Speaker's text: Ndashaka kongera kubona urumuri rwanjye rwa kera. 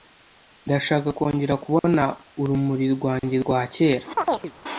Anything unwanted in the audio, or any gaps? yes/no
yes